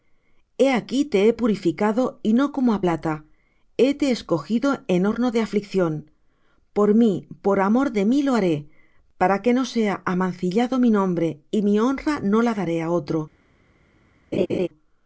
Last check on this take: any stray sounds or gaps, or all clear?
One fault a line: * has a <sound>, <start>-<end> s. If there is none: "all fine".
* has a laugh, 14.3-14.7 s